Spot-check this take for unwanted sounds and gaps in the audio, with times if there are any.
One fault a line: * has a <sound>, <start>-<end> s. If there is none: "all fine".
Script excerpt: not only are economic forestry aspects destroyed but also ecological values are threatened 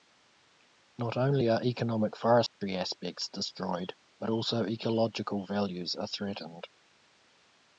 * has a dropout, 2.5-2.6 s